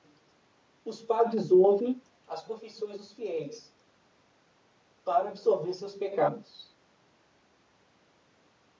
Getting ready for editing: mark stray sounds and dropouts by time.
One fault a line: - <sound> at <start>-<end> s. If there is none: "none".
none